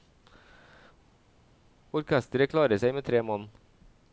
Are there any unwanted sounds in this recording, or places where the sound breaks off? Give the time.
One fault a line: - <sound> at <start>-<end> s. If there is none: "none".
none